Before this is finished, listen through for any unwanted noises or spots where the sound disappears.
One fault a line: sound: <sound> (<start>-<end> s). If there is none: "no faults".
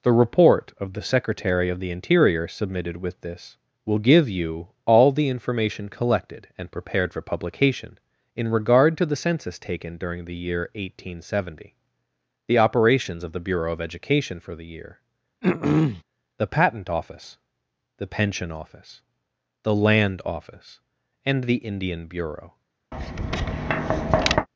sound: throat clearing (15.4-16.0 s)
sound: tap (22.9-24.5 s)